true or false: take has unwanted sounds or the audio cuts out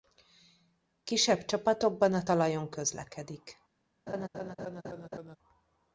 true